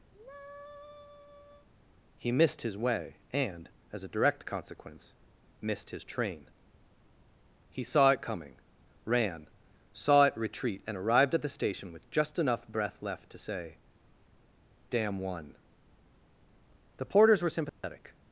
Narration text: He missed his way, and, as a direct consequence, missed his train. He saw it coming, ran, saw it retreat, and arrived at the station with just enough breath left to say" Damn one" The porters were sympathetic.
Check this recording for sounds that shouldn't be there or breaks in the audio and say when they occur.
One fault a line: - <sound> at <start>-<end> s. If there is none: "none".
- sigh at 0.1-1.7 s
- dropout at 17.7-17.8 s